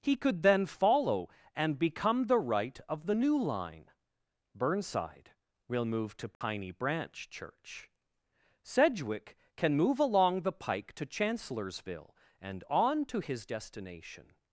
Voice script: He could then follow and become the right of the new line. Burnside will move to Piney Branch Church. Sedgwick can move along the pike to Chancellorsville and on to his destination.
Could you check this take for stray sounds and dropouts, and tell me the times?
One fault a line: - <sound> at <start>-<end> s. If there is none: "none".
- dropout at 6.3-6.4 s